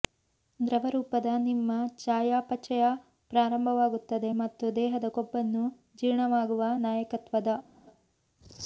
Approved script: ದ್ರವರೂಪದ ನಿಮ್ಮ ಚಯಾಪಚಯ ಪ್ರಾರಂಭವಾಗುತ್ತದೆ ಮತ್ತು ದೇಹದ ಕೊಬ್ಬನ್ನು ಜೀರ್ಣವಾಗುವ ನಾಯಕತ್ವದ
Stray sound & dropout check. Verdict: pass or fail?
pass